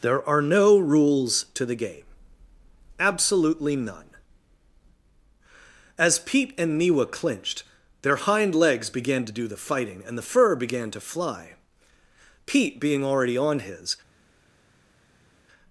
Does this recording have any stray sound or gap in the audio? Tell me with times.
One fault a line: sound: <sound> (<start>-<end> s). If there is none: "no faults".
no faults